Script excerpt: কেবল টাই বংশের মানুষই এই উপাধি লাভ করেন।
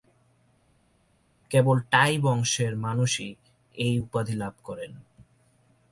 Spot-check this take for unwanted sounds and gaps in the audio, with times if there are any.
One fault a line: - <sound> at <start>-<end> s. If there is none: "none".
none